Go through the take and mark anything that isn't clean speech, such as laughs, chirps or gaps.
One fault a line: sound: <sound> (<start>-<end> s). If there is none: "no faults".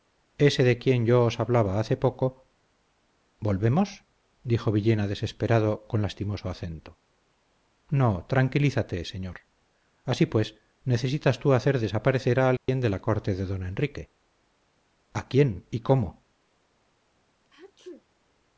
sound: dropout (12.6-12.7 s)
sound: sneeze (17.4-18.1 s)